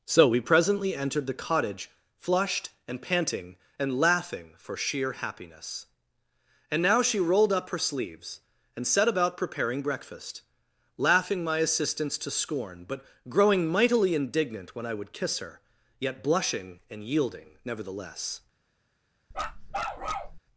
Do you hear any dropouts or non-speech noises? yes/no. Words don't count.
yes